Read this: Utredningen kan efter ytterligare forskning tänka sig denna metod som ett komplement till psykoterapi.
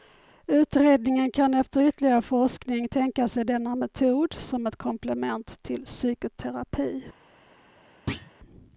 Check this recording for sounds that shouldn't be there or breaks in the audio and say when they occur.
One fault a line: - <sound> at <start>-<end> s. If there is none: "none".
- thud at 8.1-8.3 s